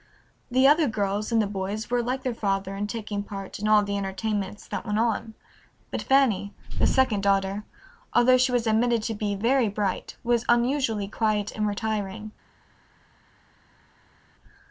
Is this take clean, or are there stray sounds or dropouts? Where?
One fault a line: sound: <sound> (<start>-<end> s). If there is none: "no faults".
no faults